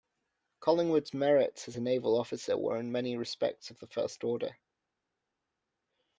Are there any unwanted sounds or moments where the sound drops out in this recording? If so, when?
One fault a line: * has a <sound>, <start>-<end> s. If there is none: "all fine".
all fine